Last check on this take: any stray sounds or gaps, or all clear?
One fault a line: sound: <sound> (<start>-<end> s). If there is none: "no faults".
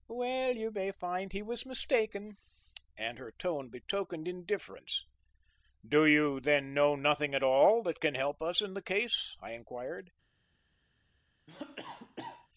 sound: cough (11.5-12.5 s)